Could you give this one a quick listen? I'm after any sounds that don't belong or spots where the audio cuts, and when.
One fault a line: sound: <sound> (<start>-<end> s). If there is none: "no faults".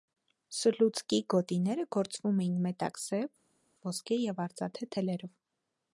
no faults